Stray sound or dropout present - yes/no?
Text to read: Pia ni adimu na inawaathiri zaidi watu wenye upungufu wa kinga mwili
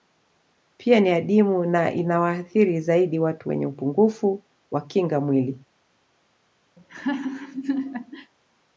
yes